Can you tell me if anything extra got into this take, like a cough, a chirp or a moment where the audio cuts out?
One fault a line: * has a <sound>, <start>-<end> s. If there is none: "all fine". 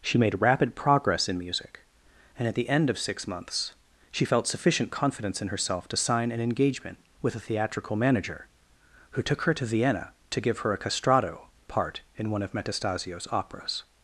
all fine